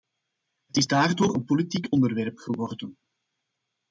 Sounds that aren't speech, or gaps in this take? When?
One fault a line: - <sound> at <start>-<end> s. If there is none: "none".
none